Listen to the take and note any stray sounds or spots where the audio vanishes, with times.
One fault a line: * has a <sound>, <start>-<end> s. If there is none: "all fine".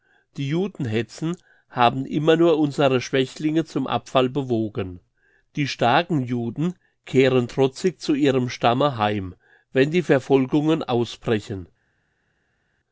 all fine